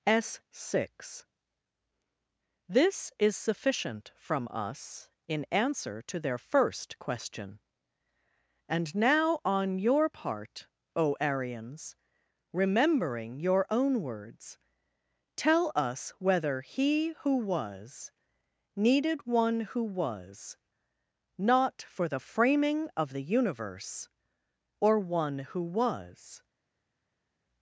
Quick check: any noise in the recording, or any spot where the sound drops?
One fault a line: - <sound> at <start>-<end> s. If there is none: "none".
none